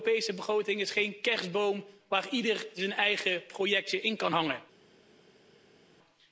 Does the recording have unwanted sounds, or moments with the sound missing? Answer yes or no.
no